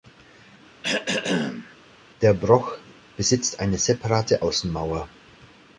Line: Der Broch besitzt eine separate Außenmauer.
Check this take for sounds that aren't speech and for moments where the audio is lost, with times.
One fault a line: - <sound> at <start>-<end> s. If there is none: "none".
- throat clearing at 0.8-1.7 s